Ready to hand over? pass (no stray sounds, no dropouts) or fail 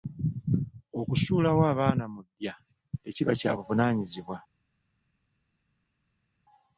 pass